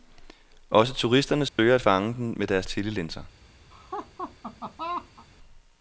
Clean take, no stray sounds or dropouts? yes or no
no